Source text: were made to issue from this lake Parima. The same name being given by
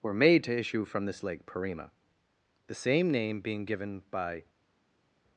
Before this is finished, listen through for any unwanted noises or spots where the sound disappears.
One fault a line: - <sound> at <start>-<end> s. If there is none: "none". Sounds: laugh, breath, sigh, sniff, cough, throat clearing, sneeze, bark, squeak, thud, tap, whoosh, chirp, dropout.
none